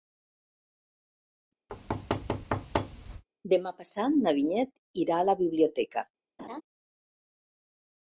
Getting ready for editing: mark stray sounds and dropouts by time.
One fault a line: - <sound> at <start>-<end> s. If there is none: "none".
- thud at 1.7-3.2 s
- laugh at 6.4-6.6 s